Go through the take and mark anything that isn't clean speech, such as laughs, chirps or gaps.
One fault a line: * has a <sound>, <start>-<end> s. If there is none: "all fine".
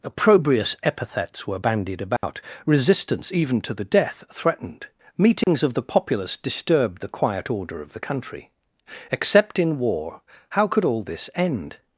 * has a dropout, 2.2-2.2 s
* has a dropout, 5.4-5.5 s